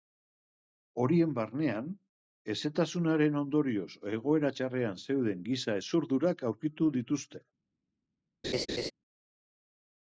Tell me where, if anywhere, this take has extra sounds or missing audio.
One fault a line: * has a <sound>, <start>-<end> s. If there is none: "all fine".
* has a laugh, 8.4-8.9 s